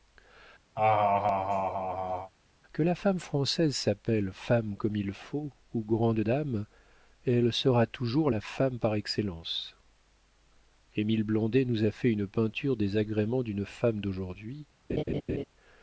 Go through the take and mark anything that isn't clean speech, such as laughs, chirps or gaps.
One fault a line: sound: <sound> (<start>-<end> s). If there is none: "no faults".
sound: laugh (0.8-2.3 s)
sound: laugh (14.9-15.4 s)